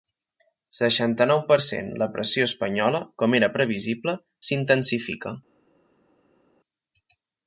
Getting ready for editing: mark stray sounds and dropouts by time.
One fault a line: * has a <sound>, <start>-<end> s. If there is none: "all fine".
all fine